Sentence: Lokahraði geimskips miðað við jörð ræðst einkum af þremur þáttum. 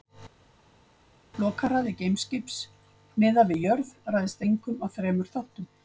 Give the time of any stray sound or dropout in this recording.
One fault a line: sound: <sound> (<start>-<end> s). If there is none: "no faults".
no faults